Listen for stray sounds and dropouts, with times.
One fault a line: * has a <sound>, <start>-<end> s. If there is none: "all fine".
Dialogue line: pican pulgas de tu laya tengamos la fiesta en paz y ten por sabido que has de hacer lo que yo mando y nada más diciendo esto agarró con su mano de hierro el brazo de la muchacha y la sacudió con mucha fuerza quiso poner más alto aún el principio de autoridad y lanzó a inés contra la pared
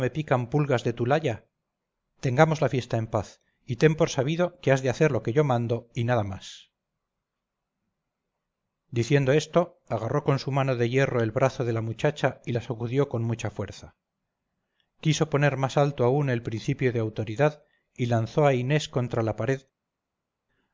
all fine